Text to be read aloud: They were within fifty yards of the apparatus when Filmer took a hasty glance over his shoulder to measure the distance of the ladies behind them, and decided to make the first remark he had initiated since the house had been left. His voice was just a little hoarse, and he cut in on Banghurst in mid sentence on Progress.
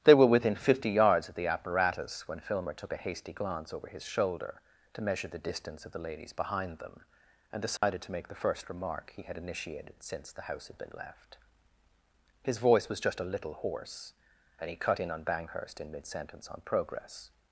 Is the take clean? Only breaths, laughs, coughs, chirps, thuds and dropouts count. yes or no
no